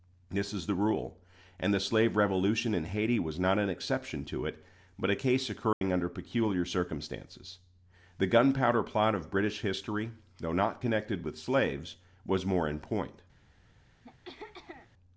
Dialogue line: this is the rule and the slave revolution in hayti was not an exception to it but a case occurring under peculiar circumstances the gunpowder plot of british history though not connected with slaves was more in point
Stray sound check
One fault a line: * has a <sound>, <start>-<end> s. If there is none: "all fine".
* has a dropout, 5.7-5.8 s
* has a throat clearing, 14.0-14.9 s